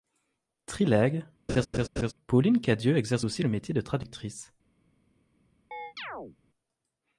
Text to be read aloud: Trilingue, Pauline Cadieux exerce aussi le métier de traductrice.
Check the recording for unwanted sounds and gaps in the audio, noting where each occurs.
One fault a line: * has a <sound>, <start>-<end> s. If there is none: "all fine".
* has a laugh, 1.5-2.1 s
* has a chirp, 5.7-6.4 s